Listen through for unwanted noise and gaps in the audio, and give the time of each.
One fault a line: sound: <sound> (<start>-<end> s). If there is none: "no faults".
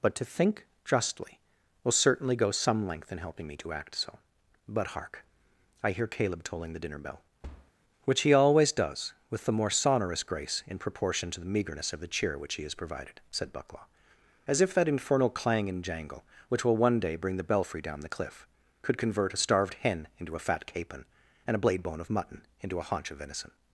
sound: thud (7.4-7.7 s)